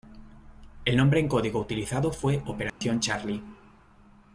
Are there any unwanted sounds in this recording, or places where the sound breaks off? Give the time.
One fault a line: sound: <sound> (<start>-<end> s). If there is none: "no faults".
sound: dropout (2.7-2.8 s)